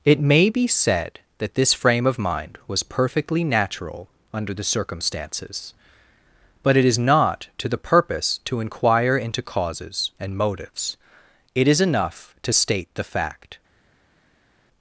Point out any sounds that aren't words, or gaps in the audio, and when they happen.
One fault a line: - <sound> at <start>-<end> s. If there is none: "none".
none